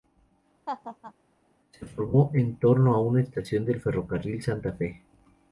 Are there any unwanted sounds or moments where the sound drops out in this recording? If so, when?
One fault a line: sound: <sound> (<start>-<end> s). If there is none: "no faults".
sound: laugh (0.7-1.1 s)